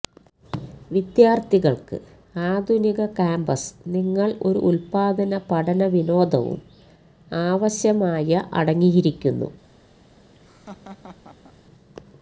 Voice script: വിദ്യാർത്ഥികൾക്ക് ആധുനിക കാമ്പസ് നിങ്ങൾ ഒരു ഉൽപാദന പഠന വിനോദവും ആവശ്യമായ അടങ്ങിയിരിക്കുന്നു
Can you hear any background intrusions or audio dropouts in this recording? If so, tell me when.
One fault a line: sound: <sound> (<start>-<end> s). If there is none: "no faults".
sound: laugh (10.4-11.6 s)